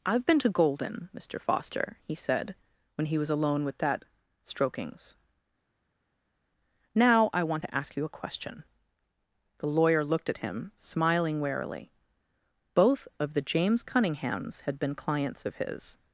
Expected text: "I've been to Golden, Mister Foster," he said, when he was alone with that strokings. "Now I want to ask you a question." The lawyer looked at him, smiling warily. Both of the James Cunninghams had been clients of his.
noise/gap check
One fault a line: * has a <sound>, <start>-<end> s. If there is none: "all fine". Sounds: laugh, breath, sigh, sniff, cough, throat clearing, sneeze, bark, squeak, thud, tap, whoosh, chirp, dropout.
all fine